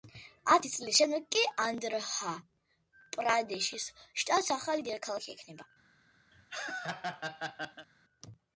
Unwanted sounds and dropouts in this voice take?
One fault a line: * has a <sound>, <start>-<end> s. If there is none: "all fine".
* has a laugh, 6.3-7.9 s